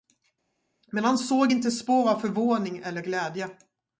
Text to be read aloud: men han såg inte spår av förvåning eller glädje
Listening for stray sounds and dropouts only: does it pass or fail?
pass